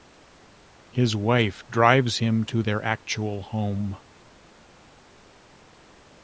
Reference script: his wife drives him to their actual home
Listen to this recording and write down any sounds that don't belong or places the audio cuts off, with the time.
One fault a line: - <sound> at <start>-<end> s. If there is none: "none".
none